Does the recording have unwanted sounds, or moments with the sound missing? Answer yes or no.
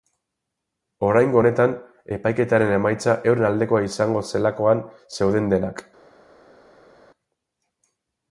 no